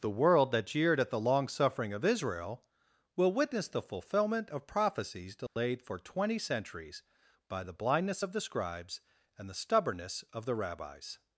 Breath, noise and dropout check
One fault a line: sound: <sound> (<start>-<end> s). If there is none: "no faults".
sound: dropout (5.5-5.6 s)